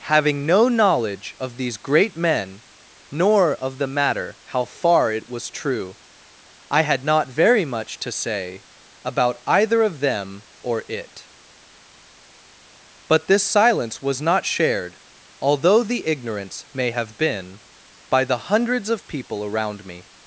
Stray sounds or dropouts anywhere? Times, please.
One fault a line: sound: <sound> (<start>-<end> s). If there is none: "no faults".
no faults